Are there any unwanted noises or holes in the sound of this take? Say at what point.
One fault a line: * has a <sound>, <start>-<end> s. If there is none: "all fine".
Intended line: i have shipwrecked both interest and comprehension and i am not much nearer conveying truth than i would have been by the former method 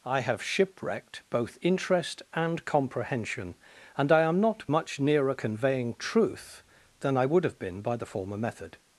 all fine